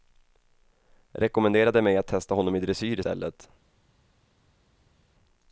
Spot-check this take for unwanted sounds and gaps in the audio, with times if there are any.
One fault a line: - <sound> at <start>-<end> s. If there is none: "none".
none